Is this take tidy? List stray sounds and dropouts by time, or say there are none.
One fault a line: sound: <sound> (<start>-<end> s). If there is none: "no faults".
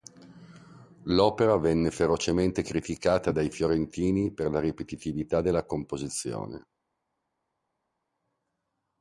no faults